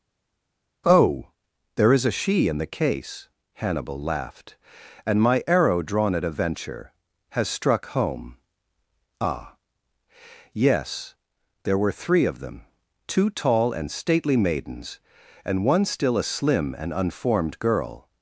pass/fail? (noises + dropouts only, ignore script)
pass